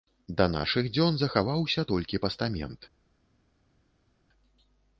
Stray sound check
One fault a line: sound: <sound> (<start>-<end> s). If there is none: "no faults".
no faults